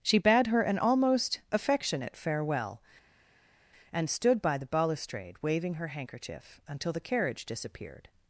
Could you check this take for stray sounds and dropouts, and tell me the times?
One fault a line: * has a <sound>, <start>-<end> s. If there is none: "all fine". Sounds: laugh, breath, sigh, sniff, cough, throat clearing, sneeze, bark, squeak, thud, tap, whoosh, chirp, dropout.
all fine